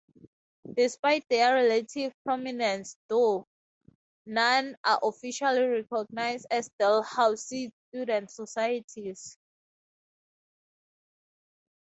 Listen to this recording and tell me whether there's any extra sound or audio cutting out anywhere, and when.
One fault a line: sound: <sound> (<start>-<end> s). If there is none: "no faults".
no faults